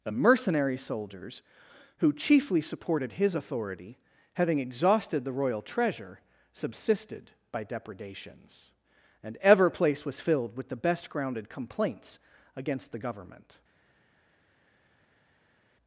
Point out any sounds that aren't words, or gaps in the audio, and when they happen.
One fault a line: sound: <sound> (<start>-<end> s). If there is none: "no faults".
no faults